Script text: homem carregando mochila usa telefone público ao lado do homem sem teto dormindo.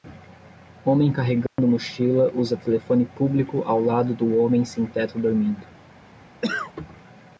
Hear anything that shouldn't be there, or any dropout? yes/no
yes